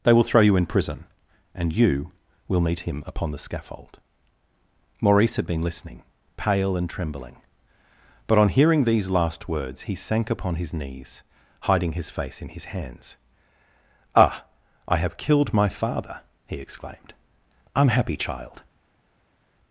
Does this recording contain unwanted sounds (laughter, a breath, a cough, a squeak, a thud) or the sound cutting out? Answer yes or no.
no